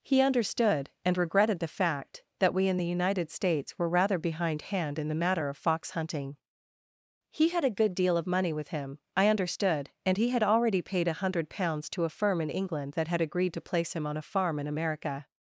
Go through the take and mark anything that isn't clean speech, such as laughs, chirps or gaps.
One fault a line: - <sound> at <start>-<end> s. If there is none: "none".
none